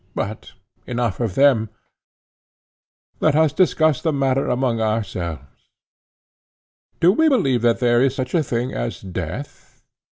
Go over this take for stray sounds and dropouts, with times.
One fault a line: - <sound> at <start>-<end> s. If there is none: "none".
none